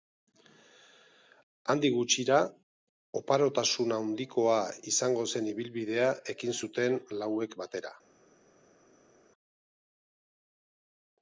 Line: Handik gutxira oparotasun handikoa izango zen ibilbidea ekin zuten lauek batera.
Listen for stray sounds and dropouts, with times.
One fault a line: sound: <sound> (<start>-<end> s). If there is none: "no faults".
no faults